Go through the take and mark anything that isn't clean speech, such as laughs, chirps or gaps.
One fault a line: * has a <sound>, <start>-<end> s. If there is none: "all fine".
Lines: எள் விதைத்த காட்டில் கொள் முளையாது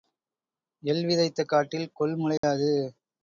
* has a dropout, 2.4-2.4 s